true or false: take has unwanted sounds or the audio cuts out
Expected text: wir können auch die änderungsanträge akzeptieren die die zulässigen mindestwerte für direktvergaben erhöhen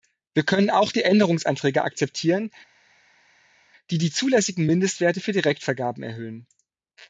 false